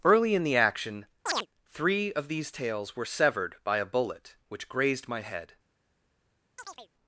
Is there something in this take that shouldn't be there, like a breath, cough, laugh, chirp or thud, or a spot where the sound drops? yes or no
yes